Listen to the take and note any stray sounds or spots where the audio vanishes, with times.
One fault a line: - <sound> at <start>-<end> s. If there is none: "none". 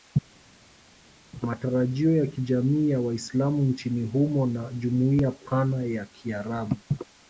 none